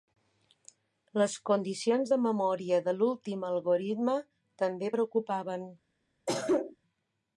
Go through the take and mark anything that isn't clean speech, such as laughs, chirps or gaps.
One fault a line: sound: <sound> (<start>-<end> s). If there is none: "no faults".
sound: cough (6.3-6.8 s)